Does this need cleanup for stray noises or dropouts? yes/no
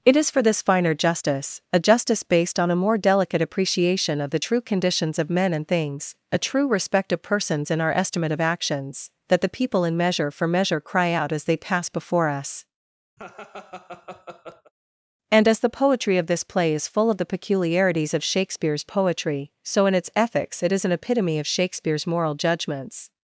yes